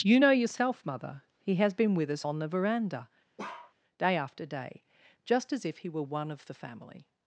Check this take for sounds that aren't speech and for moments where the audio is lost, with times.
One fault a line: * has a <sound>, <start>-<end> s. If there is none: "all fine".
* has a bark, 3.4-3.7 s